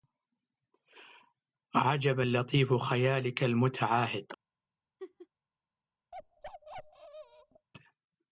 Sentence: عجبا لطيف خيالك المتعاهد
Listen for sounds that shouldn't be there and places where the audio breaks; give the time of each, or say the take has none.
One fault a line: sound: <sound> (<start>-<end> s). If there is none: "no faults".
sound: laugh (5.0-5.3 s)
sound: bark (6.1-7.7 s)